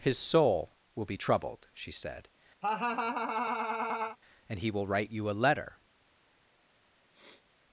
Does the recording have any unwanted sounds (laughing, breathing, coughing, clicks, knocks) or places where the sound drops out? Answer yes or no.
yes